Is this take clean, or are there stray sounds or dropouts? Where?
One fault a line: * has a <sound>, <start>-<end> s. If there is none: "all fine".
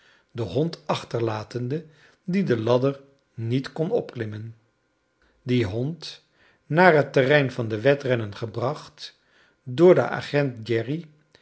all fine